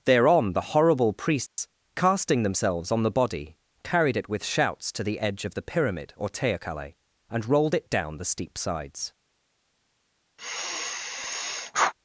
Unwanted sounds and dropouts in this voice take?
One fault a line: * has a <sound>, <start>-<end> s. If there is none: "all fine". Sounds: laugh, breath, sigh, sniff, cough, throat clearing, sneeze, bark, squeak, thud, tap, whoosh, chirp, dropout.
* has a dropout, 1.5-1.6 s
* has a sigh, 10.4-11.9 s